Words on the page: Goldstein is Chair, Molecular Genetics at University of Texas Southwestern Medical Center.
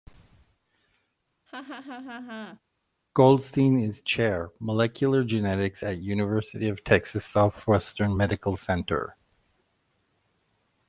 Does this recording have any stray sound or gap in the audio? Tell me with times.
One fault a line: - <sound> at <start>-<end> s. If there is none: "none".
- laugh at 1.5-2.6 s